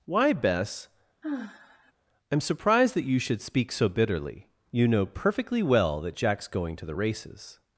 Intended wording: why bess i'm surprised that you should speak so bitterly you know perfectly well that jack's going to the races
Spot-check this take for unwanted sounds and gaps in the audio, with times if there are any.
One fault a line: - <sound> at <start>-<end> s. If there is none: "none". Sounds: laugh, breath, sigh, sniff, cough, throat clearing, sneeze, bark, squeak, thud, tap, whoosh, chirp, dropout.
- sigh at 1.2-1.9 s